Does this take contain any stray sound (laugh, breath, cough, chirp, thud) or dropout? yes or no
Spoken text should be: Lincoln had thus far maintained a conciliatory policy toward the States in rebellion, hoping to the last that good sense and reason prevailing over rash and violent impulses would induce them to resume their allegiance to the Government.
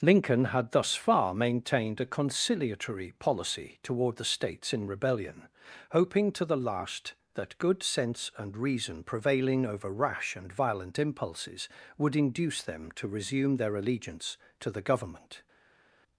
no